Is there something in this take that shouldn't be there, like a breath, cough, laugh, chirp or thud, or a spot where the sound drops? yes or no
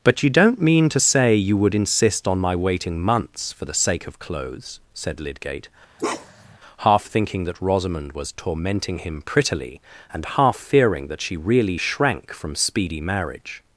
yes